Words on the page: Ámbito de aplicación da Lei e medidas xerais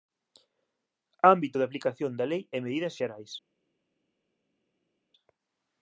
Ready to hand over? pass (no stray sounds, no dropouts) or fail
pass